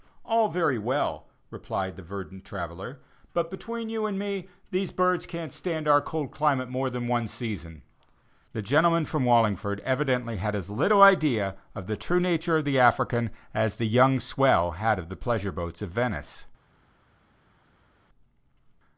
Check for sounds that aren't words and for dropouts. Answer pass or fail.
pass